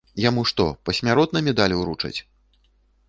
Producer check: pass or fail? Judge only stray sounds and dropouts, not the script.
pass